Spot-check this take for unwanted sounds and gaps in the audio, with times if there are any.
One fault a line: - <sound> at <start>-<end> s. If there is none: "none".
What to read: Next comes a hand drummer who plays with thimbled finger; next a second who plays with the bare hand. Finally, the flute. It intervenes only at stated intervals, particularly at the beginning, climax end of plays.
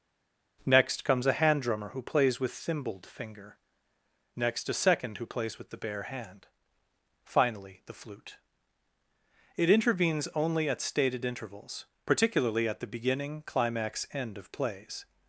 none